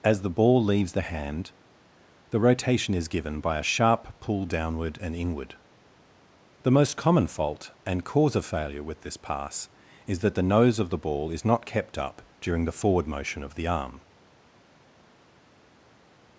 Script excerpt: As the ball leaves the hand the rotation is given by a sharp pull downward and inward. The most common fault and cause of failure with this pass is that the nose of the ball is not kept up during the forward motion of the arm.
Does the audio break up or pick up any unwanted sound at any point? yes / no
no